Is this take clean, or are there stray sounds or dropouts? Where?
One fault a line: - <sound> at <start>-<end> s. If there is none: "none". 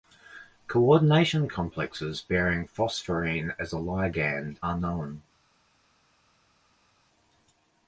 none